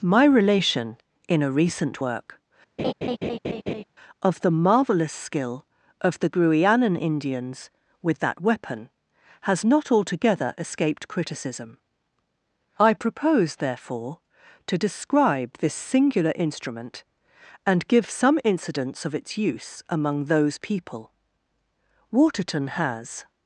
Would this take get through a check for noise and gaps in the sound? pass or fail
fail